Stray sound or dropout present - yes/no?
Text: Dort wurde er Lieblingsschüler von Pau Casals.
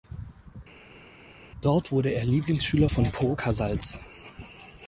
no